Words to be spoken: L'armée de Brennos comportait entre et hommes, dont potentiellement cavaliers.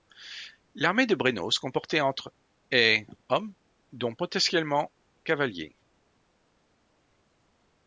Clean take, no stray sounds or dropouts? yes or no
yes